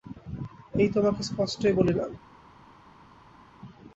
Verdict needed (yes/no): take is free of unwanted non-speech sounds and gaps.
yes